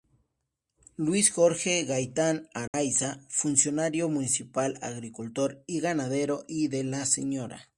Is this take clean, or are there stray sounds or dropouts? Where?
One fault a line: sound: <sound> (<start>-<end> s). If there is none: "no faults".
sound: dropout (2.7-2.7 s)